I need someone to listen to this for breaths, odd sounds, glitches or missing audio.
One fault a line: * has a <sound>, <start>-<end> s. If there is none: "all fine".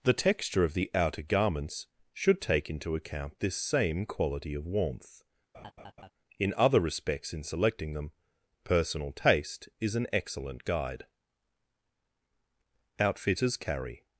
* has a laugh, 5.5-6.1 s